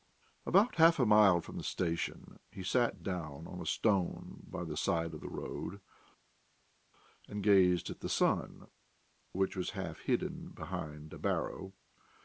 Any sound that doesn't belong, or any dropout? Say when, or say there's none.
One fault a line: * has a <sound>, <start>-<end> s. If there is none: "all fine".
all fine